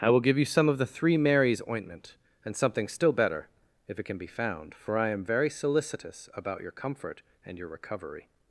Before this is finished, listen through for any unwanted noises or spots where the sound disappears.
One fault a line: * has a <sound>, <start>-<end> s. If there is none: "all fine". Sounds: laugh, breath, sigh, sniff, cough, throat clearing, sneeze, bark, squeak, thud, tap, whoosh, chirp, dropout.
all fine